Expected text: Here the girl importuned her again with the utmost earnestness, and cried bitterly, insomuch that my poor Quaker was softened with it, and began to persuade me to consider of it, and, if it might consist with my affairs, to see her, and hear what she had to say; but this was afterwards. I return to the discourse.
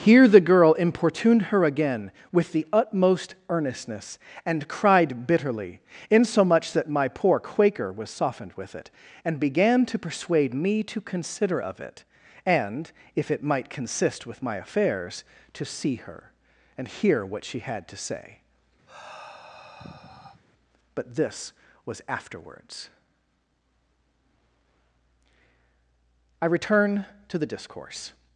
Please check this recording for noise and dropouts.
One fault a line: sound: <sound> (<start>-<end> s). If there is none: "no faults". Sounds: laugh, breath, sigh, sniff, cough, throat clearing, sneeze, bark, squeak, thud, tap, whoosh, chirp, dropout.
sound: sigh (18.9-20.4 s)